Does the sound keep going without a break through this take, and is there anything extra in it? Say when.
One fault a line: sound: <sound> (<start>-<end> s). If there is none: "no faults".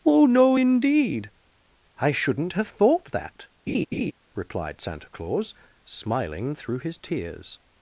sound: laugh (3.7-4.1 s)